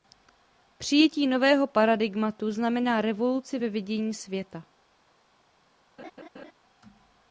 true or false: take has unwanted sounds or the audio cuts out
true